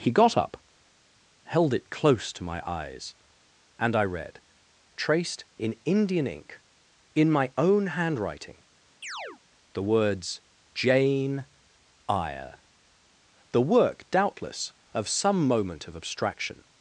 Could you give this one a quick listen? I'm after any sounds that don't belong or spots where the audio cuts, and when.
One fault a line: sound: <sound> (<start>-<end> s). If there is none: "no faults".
sound: chirp (9.0-9.4 s)